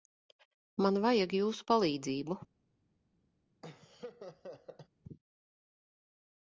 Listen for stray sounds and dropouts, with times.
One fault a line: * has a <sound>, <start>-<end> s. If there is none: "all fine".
* has a laugh, 3.6-4.9 s